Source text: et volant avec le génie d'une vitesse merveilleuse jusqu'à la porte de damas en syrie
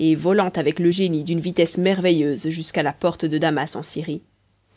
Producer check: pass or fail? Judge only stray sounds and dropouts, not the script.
pass